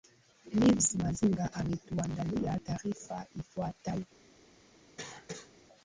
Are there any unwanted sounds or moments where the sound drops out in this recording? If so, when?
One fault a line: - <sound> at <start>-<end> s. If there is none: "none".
- cough at 5.0-5.5 s